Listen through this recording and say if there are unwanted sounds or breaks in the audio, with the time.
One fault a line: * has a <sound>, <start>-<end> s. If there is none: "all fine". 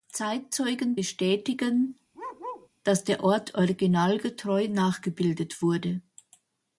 * has a bark, 2.1-2.7 s